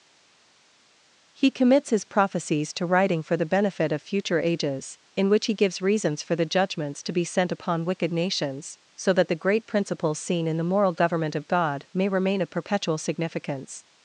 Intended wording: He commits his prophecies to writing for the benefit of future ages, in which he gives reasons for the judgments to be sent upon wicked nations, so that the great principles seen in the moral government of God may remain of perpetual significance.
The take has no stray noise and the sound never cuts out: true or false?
true